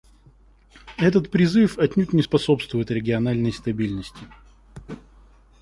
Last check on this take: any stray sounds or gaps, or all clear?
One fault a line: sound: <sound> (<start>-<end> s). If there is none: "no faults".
no faults